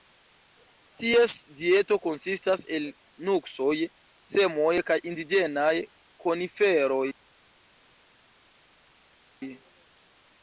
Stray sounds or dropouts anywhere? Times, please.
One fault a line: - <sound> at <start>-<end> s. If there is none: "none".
none